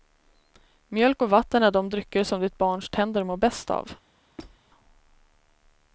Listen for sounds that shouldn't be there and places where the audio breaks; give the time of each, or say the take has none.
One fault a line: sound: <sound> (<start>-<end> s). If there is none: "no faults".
sound: squeak (4.4-4.6 s)